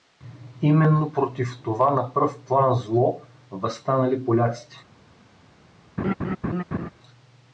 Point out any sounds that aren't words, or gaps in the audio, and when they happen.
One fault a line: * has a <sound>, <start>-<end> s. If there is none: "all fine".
* has a laugh, 6.0-6.9 s